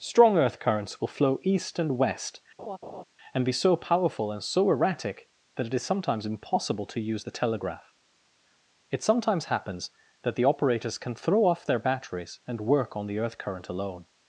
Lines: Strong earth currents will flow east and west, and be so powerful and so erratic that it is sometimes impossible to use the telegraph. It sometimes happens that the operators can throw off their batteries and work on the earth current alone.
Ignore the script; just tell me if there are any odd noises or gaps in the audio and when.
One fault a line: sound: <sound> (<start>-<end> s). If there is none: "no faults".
sound: laugh (2.6-3.0 s)